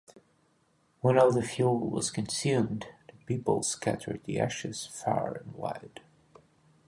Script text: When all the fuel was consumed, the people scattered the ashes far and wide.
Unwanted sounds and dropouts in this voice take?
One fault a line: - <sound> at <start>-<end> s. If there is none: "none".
none